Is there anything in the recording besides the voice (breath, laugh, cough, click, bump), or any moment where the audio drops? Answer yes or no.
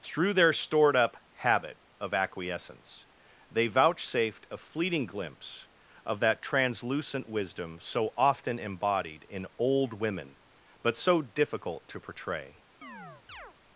yes